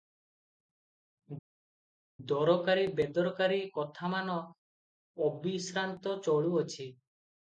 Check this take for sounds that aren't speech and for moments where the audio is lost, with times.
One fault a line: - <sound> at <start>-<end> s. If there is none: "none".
none